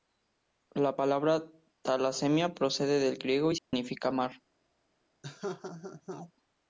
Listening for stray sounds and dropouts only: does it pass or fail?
fail